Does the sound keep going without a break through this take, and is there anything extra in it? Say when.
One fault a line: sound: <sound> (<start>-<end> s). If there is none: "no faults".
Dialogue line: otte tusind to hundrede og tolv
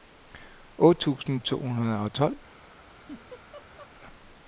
sound: laugh (2.9-3.9 s)